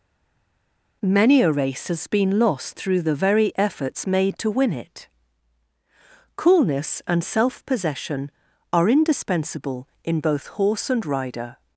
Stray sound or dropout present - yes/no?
no